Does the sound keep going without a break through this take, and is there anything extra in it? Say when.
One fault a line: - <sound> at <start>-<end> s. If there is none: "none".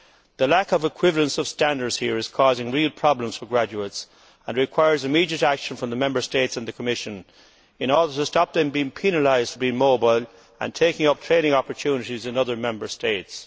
none